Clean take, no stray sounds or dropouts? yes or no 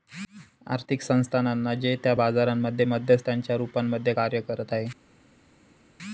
yes